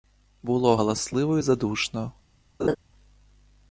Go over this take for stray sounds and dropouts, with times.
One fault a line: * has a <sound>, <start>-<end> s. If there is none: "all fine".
* has a laugh, 2.6-2.8 s